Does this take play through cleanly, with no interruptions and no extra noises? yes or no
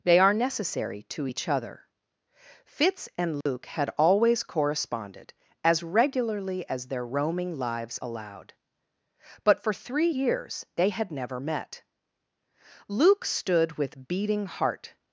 no